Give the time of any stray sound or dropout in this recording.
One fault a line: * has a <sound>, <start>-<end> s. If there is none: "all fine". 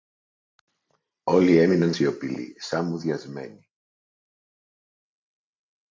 all fine